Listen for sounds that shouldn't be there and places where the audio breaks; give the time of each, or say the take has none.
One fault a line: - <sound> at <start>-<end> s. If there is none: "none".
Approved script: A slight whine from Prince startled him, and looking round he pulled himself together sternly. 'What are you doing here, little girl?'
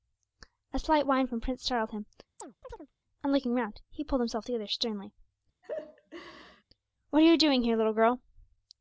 - chirp at 2.4-2.9 s
- laugh at 5.6-6.6 s